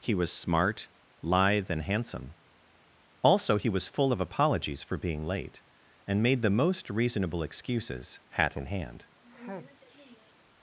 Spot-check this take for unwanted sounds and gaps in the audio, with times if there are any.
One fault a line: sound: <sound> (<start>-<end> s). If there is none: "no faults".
sound: sneeze (9.2-10.3 s)